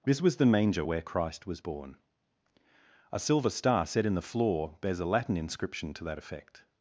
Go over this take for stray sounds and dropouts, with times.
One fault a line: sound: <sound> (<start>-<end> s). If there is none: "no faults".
no faults